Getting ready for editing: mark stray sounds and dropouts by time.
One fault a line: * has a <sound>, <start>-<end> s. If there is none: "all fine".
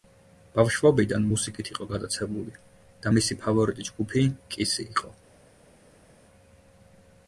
all fine